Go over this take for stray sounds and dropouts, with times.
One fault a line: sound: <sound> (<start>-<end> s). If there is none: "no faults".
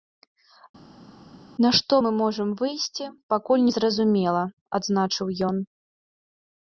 no faults